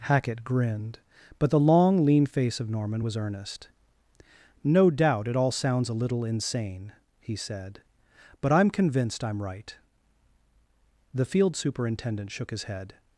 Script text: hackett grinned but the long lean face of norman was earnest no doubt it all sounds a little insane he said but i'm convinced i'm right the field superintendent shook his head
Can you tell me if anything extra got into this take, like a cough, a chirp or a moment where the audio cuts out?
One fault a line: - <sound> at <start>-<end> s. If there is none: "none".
none